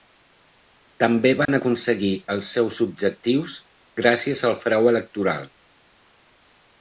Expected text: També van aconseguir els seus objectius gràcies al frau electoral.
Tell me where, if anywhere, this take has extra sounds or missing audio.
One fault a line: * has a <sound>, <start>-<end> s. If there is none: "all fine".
* has a dropout, 1.4-1.5 s